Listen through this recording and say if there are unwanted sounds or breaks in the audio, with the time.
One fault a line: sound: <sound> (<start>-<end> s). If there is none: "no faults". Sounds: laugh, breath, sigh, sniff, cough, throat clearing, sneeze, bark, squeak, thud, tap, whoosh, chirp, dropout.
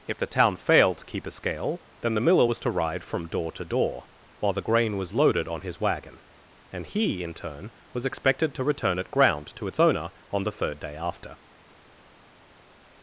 no faults